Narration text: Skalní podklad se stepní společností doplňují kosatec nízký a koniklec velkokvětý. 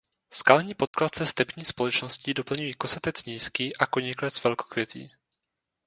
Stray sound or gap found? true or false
true